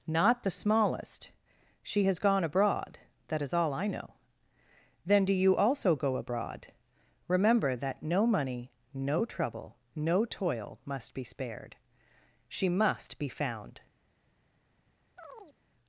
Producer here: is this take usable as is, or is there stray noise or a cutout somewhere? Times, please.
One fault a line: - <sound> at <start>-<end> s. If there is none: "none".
- chirp at 15.2-15.6 s